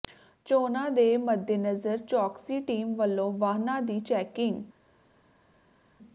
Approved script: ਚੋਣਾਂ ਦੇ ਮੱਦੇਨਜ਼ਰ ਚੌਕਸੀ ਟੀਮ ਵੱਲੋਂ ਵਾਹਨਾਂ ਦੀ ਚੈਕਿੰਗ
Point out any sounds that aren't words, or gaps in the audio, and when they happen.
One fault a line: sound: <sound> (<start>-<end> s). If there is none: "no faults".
no faults